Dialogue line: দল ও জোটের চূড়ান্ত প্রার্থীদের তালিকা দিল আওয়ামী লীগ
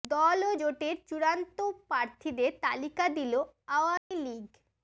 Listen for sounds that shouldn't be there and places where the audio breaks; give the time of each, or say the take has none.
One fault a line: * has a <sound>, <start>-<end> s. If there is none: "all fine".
* has a dropout, 4.0-4.1 s